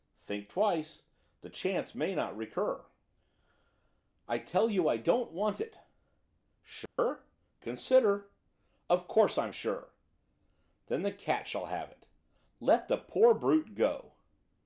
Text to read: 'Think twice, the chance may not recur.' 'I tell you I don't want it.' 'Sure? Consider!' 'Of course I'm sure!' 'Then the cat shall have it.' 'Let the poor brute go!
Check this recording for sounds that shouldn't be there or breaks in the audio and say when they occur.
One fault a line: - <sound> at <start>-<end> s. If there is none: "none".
- dropout at 6.9-7.0 s